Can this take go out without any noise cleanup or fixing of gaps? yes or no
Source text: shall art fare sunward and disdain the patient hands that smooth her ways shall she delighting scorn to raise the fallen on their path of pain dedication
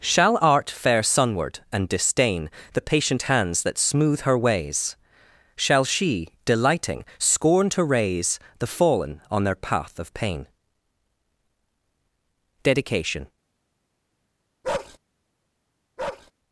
no